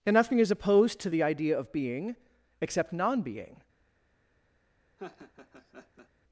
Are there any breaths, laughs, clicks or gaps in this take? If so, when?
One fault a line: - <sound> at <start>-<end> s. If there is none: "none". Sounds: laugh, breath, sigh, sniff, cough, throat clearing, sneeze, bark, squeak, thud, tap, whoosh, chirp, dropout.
- laugh at 5.0-6.1 s